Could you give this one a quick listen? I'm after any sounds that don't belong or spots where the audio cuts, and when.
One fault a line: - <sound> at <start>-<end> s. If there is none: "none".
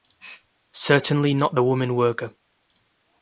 none